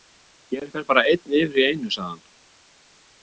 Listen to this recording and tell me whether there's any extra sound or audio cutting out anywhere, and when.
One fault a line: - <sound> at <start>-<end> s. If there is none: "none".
none